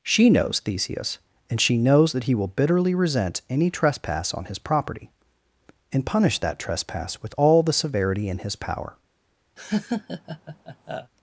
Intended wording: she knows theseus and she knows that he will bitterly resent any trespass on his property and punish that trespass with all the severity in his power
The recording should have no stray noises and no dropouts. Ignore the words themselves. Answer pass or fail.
fail